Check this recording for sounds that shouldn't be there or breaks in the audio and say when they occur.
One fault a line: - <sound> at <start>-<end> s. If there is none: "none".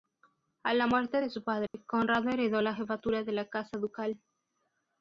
- dropout at 1.7-1.7 s